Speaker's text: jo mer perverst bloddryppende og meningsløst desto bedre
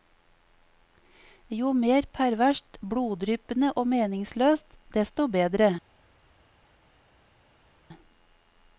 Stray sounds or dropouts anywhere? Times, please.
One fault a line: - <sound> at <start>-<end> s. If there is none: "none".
none